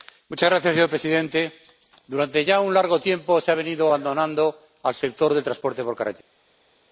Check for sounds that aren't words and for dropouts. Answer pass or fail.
pass